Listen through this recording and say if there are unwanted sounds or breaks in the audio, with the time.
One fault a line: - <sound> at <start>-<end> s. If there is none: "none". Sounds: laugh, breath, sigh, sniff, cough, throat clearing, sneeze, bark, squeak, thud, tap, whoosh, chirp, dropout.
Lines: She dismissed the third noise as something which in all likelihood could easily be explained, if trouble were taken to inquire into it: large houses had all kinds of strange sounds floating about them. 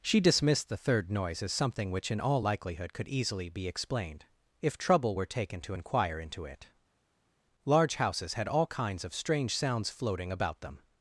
none